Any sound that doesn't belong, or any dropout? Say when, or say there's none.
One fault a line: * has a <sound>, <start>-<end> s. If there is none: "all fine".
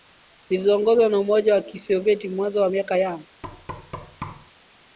* has a thud, 3.4-4.5 s